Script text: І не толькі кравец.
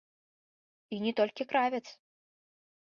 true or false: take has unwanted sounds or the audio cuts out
false